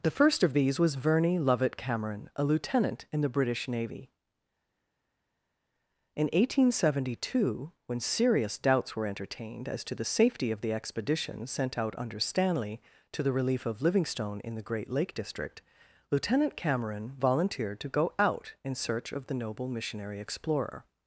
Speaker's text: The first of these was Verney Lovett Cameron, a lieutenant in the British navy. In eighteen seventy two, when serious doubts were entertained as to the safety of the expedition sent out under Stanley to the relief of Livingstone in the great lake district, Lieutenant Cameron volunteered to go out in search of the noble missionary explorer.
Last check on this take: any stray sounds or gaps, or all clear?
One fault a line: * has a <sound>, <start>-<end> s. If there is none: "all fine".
all fine